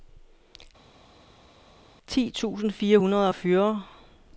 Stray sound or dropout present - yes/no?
no